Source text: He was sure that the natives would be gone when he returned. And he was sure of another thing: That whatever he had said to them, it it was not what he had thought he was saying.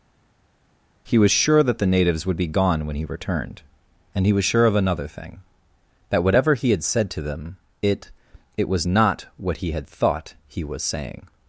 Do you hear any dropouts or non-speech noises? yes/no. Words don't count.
no